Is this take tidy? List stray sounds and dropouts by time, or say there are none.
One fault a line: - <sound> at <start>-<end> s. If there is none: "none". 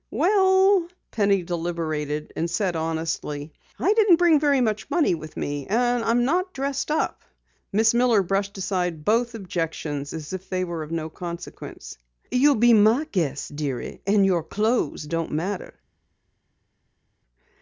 none